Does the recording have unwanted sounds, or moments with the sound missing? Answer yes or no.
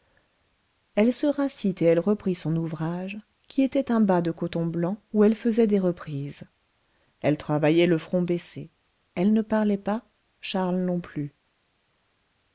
no